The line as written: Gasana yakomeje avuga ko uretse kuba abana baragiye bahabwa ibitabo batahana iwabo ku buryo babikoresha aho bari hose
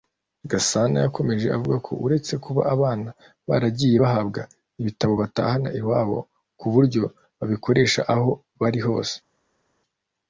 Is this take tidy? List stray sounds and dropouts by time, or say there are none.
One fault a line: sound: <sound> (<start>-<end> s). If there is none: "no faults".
no faults